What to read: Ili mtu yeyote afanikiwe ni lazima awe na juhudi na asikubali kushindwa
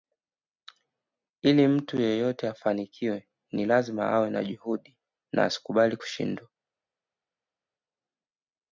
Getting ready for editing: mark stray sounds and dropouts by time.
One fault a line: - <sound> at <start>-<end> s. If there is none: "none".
none